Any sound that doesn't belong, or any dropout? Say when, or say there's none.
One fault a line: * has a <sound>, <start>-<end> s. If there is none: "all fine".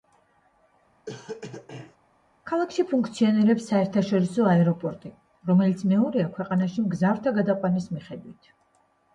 * has a cough, 1.1-2.0 s